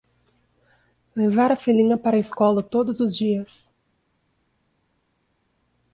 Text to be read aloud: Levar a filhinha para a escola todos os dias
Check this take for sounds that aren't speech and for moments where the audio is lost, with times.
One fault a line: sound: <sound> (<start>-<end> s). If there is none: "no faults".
no faults